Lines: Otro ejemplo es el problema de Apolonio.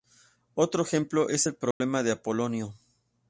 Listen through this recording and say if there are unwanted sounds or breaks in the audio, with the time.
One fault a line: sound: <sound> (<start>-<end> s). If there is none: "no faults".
sound: dropout (1.7-1.8 s)